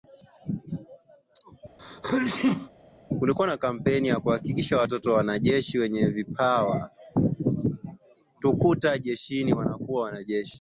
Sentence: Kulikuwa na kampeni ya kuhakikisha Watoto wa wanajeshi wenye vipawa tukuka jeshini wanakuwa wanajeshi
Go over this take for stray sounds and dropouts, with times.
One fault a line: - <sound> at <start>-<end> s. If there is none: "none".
- sneeze at 1.8-2.7 s